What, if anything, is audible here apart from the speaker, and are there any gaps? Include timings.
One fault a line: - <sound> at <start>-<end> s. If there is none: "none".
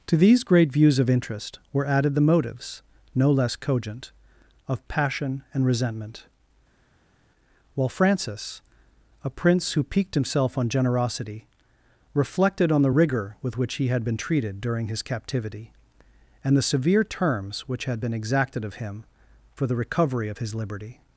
none